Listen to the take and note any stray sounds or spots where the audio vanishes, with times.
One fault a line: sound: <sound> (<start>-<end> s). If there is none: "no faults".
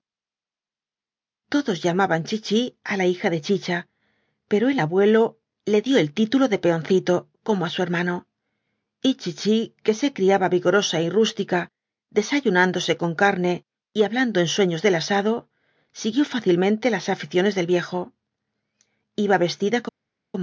no faults